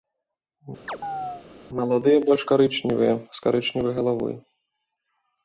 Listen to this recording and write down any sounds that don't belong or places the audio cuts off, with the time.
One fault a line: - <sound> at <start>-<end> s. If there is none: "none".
- chirp at 0.9-1.5 s